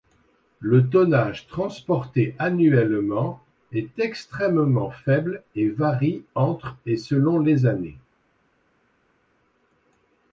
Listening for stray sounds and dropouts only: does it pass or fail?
pass